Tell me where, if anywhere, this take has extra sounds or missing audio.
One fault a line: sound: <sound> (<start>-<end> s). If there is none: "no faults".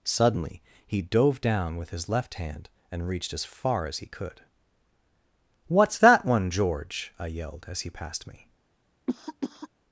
sound: cough (9.1-9.7 s)